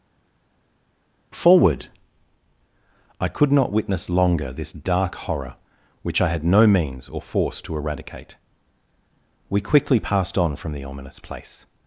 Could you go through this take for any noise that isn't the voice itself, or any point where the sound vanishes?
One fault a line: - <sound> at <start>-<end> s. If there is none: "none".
none